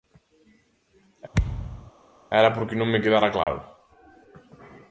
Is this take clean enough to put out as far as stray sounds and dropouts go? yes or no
no